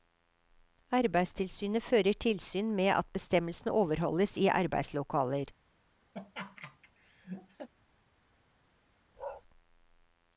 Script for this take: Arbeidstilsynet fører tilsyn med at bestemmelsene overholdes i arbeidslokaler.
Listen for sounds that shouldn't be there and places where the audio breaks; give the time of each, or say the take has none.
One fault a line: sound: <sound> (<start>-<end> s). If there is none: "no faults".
sound: laugh (6.1-7.7 s)
sound: bark (9.2-9.4 s)